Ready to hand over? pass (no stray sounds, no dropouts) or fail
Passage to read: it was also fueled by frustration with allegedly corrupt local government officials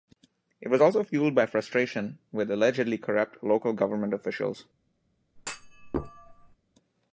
fail